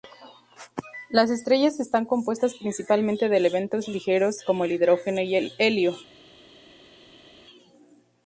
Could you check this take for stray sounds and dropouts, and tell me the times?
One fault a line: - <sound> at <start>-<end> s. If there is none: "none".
none